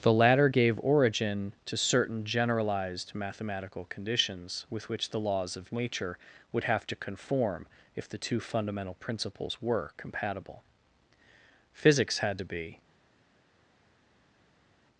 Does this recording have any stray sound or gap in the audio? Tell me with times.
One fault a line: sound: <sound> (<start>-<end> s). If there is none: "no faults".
no faults